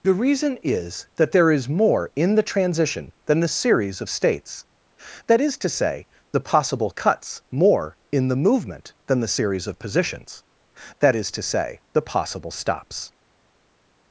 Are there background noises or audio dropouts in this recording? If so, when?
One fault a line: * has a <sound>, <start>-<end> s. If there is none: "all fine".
all fine